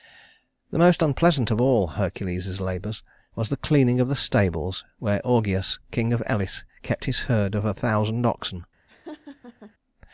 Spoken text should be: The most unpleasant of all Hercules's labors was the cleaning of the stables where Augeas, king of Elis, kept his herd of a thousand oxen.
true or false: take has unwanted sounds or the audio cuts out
true